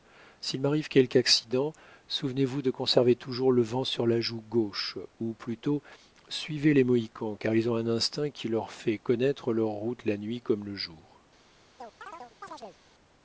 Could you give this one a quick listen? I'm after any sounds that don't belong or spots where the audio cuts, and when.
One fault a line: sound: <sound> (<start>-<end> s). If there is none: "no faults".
sound: chirp (11.8-12.8 s)